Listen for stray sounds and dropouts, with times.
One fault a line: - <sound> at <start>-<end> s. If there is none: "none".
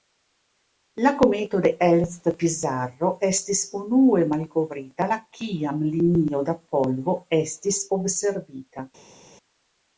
none